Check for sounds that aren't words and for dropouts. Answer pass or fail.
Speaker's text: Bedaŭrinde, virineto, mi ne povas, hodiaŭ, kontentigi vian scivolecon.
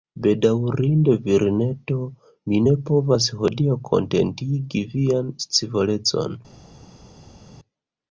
pass